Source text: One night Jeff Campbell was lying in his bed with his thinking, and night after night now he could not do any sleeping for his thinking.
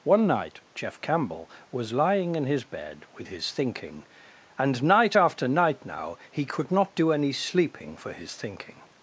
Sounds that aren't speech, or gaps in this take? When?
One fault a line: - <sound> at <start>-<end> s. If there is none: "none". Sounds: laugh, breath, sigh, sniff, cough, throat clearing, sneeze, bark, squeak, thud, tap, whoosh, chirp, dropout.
none